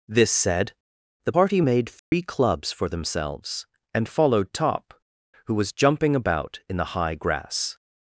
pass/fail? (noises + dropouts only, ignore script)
fail